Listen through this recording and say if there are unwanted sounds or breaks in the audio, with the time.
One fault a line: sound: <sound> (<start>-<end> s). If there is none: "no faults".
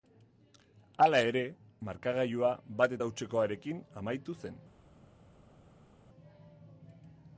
no faults